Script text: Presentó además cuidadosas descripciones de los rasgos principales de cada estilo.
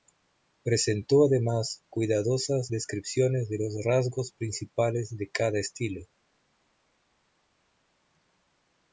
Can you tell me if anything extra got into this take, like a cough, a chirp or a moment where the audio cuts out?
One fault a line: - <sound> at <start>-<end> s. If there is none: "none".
none